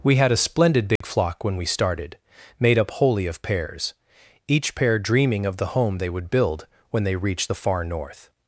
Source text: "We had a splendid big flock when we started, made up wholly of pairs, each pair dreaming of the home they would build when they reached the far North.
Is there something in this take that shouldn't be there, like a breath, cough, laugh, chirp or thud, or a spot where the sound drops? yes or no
yes